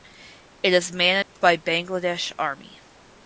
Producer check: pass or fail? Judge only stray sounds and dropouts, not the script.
fail